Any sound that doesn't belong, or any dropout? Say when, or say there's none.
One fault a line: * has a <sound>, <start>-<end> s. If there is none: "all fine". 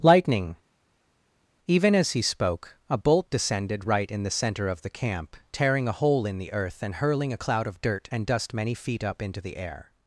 all fine